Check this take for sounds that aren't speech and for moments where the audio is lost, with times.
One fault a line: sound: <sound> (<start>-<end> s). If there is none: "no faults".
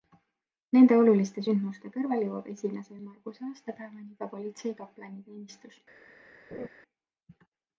sound: laugh (6.5-6.7 s)